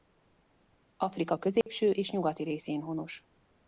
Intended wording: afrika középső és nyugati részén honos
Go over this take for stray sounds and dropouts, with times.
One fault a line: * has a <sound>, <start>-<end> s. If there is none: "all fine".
* has a dropout, 1.6-1.7 s